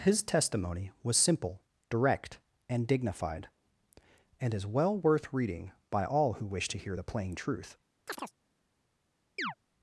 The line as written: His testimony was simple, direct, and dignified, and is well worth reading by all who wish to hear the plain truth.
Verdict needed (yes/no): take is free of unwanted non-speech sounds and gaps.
no